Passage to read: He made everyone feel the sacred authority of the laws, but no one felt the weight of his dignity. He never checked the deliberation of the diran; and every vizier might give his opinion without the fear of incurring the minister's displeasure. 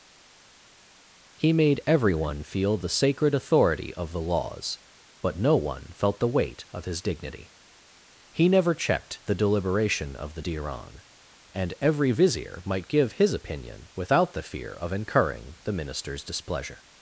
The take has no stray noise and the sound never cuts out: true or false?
true